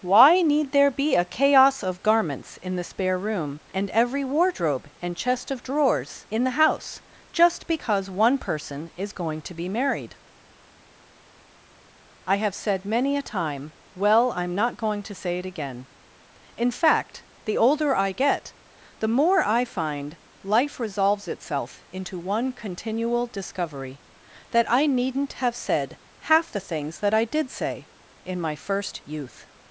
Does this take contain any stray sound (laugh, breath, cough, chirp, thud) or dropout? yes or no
no